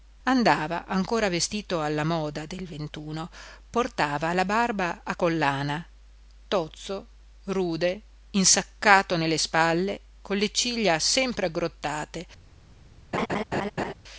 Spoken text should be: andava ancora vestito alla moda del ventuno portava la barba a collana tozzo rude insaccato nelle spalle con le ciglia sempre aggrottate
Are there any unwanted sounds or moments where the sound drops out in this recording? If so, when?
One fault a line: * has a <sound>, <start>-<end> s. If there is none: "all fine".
* has a laugh, 13.1-13.9 s